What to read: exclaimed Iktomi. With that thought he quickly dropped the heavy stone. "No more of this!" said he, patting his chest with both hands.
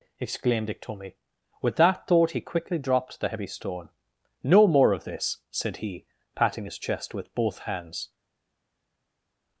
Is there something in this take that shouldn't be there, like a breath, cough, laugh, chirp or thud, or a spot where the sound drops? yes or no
no